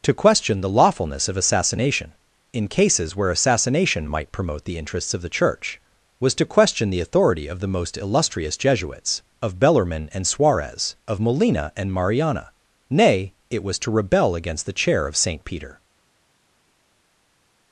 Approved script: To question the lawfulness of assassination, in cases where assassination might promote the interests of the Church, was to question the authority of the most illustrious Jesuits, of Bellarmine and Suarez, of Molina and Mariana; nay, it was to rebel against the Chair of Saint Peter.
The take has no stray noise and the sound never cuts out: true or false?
true